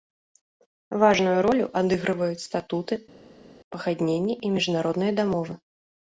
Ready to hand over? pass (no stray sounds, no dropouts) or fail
pass